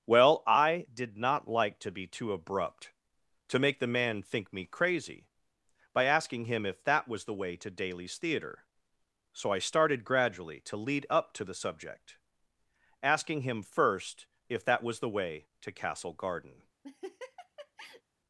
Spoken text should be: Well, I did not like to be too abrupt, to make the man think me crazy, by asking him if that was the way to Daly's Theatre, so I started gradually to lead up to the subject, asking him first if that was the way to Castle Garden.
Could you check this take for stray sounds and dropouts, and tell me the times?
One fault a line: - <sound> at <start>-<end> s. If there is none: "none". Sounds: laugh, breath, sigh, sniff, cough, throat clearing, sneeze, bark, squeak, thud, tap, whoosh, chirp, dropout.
- laugh at 16.8-18.0 s